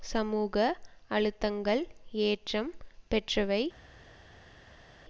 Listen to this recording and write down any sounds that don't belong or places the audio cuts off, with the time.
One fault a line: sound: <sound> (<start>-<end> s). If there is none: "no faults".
no faults